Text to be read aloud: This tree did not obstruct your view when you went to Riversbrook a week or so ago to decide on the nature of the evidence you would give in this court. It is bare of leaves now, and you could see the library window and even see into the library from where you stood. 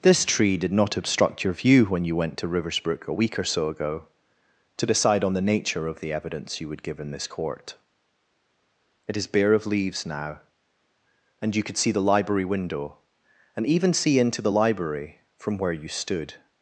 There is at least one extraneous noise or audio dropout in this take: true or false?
false